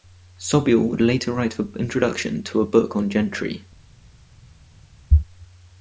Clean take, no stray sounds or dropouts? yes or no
yes